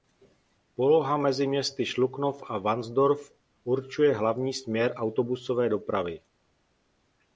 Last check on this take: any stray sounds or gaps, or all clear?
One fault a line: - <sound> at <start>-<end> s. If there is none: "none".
none